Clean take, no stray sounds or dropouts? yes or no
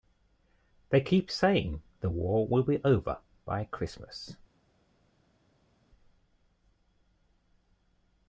yes